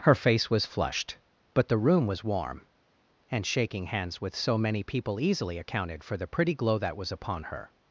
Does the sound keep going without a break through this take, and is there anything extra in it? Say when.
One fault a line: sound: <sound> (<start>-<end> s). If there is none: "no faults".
no faults